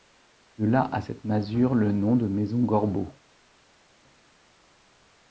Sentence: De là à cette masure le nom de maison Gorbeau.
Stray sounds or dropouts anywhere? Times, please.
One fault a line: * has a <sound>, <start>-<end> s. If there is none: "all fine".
all fine